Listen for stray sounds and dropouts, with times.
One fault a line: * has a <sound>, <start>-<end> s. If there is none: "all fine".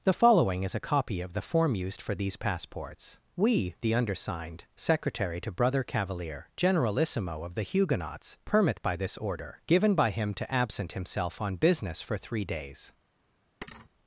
* has a thud, 13.6-13.9 s